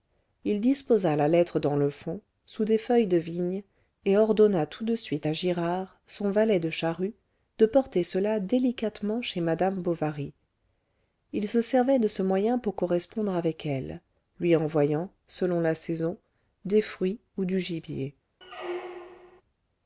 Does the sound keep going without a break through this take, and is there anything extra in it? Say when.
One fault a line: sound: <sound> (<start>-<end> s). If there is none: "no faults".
sound: squeak (18.4-19.4 s)